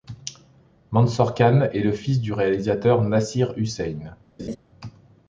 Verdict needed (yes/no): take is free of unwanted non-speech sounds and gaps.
no